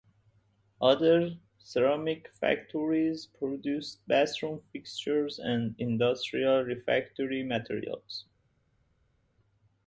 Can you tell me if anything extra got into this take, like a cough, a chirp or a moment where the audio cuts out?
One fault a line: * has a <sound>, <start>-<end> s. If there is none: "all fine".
all fine